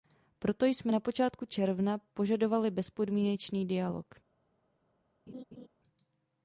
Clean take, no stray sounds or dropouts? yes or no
no